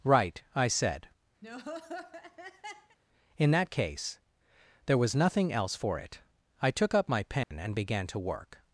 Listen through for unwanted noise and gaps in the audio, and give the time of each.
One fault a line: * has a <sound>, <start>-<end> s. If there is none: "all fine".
* has a laugh, 1.4-3.0 s
* has a dropout, 7.4-7.5 s